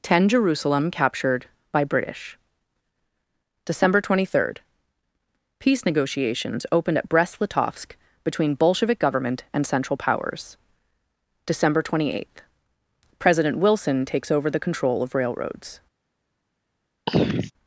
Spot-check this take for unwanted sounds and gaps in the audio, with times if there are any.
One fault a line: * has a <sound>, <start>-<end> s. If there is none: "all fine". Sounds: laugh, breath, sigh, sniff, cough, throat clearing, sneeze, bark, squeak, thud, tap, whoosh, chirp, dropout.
* has a throat clearing, 17.1-17.5 s